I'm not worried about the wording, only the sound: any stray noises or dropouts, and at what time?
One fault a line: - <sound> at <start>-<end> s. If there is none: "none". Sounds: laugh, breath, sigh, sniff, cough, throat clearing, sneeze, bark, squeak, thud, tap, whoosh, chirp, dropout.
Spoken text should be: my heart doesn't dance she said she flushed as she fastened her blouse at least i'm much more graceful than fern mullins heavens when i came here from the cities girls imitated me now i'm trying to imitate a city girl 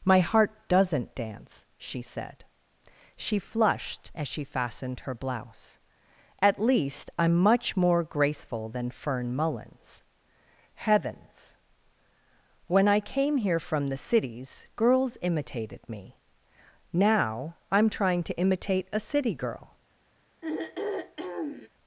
- throat clearing at 20.4-21.7 s